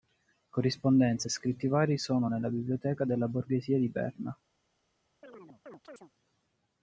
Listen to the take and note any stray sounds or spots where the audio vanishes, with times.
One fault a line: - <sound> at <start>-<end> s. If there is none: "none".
- chirp at 5.2-6.1 s